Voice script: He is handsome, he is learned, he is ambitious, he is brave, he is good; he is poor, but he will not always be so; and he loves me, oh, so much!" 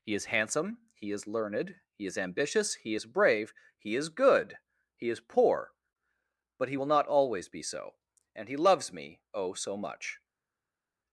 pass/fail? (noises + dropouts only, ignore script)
pass